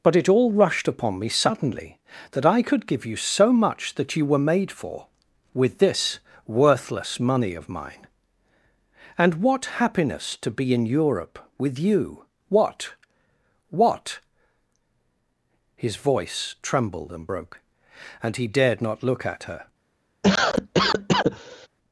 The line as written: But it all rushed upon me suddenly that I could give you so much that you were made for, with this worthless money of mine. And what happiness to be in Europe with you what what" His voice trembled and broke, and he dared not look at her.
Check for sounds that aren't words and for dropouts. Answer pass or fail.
fail